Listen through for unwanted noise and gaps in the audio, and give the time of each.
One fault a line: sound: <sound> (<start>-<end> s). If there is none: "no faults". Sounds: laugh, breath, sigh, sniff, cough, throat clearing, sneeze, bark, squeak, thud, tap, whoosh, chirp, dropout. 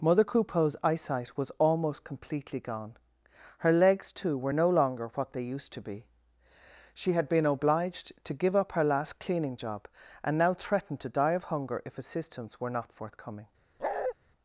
sound: bark (13.8-14.1 s)